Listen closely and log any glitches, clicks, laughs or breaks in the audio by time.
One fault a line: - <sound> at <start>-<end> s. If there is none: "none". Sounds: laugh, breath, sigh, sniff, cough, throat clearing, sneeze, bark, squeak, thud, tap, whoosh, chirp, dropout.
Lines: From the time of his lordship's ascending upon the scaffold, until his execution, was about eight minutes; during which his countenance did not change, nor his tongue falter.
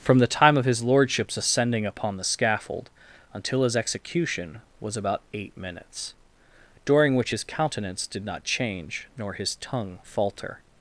none